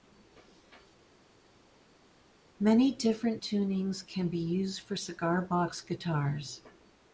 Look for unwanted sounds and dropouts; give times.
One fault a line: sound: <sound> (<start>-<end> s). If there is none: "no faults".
no faults